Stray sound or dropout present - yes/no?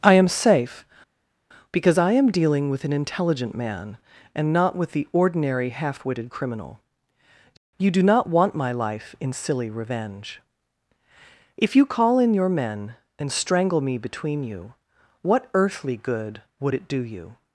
no